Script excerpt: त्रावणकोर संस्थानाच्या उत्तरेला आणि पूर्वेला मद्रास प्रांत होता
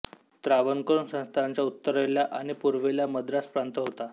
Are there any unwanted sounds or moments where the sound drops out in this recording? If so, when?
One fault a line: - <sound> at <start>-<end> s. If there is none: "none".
none